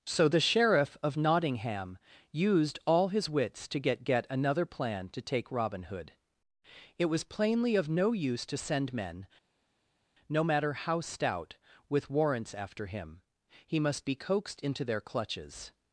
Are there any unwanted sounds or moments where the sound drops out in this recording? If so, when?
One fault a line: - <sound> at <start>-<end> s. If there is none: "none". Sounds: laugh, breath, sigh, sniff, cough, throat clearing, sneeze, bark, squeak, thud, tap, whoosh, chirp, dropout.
none